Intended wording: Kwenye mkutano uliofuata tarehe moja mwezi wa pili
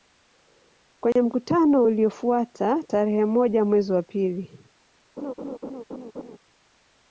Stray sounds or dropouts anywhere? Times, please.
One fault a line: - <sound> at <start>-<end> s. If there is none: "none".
- dropout at 1.1-1.2 s
- laugh at 5.2-6.4 s